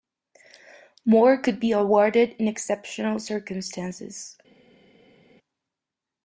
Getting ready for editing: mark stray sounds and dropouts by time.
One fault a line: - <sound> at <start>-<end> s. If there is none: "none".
none